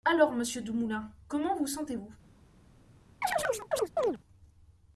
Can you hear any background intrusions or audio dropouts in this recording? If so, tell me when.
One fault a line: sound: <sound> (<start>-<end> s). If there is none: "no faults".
sound: chirp (3.2-4.2 s)